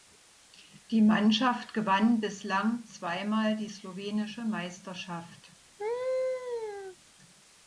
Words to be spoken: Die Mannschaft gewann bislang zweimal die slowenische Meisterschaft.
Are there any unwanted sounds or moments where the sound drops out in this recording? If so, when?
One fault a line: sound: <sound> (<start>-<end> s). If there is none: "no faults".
sound: laugh (5.8-7.0 s)